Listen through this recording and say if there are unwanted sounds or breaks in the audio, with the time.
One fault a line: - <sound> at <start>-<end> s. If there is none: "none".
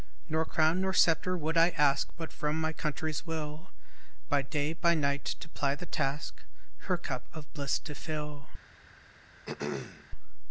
- throat clearing at 9.5-10.1 s